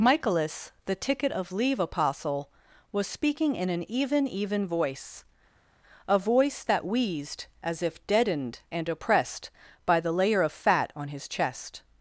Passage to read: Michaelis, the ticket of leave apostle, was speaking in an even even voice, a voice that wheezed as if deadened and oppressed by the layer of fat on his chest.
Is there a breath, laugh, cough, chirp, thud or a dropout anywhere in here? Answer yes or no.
no